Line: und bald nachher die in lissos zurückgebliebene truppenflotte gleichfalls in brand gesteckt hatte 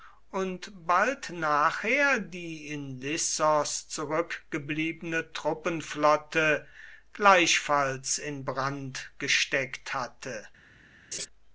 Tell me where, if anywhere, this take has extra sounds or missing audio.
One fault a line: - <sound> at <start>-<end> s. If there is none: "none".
- laugh at 11.1-11.3 s